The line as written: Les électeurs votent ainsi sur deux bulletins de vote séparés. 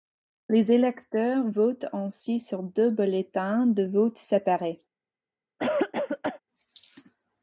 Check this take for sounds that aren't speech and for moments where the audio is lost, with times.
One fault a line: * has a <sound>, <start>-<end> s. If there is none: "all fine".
* has a cough, 5.6-6.4 s